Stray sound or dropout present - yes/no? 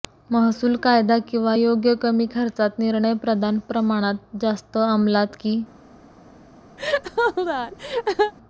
yes